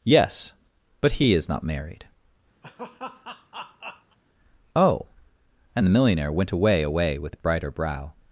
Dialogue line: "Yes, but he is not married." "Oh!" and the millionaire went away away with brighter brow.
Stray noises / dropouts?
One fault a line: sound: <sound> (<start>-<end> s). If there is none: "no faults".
sound: laugh (2.6-4.2 s)